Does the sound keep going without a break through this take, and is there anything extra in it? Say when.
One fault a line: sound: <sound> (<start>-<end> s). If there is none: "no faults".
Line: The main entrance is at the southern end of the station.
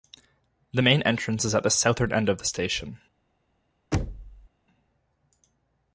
sound: thud (3.9-4.5 s)